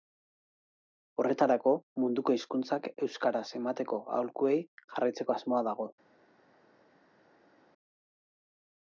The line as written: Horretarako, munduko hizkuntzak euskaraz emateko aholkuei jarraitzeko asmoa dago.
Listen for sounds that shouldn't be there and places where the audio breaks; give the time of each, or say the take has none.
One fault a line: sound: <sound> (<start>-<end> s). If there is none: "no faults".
no faults